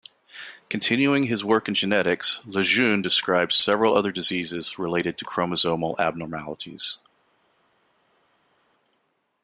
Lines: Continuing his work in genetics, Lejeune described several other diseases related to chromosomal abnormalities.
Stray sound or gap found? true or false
false